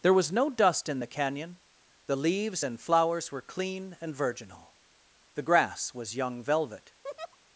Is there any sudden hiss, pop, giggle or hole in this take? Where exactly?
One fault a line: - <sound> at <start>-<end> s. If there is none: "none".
- laugh at 7.0-7.4 s